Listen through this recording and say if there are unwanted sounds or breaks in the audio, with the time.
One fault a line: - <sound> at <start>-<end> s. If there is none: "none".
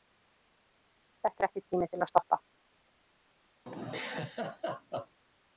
- laugh at 3.7-5.2 s